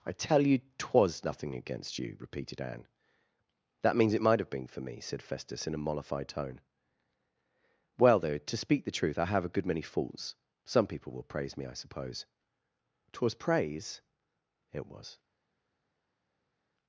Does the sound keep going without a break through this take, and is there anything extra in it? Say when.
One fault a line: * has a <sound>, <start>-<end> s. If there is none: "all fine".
all fine